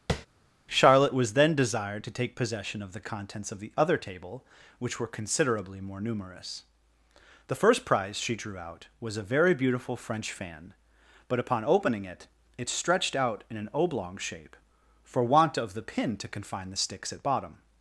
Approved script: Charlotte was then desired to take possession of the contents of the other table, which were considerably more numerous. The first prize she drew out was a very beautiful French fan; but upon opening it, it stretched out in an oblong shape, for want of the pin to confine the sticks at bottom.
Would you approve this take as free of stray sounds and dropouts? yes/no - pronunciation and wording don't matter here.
no